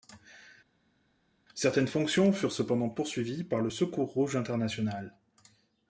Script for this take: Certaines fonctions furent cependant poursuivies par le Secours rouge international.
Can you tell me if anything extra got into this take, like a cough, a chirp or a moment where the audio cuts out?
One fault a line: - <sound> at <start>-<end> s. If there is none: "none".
none